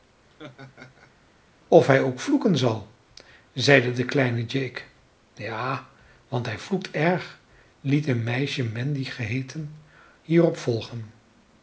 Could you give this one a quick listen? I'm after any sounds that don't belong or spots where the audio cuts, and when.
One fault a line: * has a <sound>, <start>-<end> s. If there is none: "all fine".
* has a laugh, 0.3-1.1 s